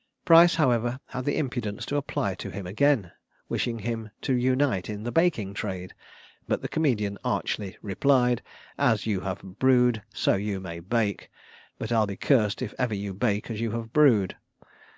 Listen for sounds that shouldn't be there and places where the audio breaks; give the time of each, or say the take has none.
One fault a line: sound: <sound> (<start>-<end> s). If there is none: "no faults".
no faults